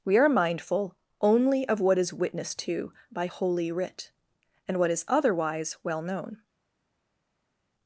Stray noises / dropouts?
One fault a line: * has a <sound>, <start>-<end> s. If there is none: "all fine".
all fine